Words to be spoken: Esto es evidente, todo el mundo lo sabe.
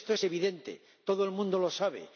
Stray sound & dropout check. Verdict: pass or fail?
pass